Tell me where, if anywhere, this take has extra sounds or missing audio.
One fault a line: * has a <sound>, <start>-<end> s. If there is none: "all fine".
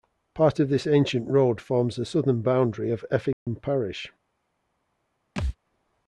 * has a dropout, 3.3-3.5 s
* has a thud, 5.4-5.6 s